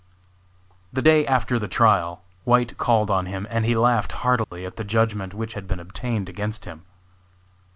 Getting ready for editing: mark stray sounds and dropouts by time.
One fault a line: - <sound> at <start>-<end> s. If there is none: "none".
- dropout at 4.4-4.5 s